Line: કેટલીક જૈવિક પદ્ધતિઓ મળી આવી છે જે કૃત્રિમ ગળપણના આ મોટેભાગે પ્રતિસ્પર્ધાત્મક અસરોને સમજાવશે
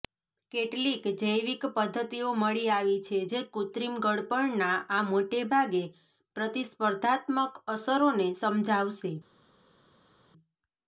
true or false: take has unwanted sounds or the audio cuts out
false